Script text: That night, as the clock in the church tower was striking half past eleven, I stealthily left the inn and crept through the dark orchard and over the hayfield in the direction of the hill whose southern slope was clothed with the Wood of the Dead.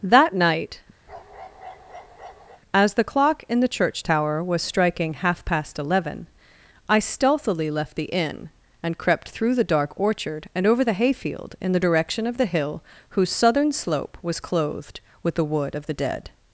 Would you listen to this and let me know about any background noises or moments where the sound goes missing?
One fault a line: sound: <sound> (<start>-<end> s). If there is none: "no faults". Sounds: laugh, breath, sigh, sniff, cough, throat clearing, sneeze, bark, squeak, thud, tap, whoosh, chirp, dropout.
sound: bark (1.1-2.6 s)